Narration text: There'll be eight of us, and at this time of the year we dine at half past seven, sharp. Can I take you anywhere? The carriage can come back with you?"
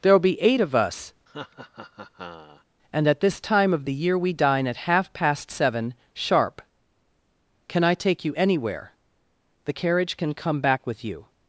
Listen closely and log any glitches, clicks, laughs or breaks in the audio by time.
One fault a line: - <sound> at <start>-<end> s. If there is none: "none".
- laugh at 1.3-2.6 s